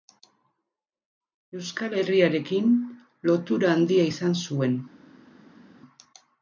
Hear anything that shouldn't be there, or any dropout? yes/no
no